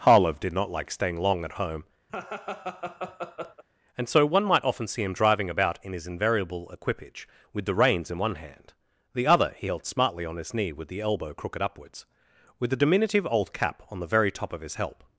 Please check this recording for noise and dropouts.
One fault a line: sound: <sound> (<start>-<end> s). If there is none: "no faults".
sound: laugh (2.1-3.6 s)